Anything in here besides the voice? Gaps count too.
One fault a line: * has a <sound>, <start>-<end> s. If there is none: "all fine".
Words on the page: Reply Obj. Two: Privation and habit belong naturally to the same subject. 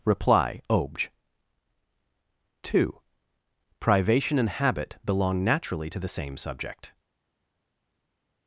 all fine